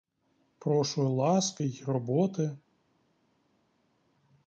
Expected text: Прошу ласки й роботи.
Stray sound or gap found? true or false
false